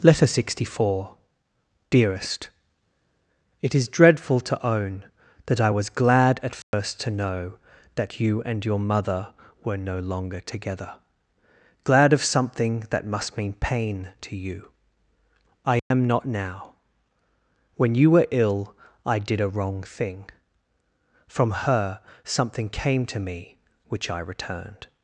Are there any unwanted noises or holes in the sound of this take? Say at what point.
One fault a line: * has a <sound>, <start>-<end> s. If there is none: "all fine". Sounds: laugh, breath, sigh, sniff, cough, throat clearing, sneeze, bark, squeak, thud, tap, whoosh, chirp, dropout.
* has a dropout, 6.6-6.7 s
* has a dropout, 15.8-15.9 s